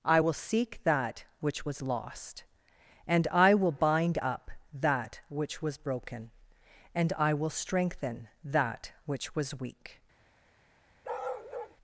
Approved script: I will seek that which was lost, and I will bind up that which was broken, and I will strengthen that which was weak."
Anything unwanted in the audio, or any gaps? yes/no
yes